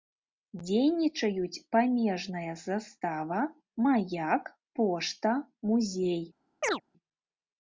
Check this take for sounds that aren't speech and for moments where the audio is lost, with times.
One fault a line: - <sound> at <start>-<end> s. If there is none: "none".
- chirp at 6.6-6.8 s